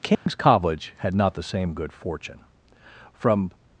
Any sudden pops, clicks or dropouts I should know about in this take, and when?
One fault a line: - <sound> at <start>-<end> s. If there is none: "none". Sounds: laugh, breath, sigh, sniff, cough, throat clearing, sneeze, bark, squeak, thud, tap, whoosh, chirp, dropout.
- dropout at 0.1-0.3 s